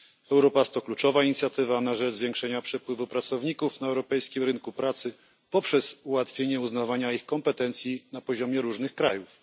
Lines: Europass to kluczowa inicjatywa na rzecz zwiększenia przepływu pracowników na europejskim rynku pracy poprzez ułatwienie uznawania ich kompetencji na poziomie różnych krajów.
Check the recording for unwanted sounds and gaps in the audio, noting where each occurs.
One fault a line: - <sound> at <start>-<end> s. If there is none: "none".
none